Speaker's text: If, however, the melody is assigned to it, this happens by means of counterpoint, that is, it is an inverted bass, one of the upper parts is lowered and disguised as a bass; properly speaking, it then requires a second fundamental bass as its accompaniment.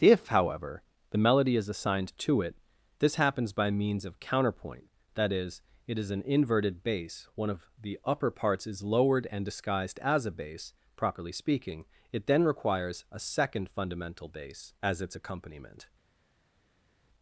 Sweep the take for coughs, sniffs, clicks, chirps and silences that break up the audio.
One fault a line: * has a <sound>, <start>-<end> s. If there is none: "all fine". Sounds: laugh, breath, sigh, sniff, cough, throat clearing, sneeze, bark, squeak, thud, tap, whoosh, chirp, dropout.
all fine